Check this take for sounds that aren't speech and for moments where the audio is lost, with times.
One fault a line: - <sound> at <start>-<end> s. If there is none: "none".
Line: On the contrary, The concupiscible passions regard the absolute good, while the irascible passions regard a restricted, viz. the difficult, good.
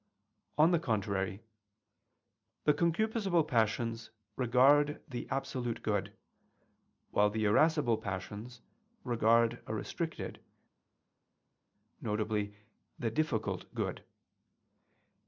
none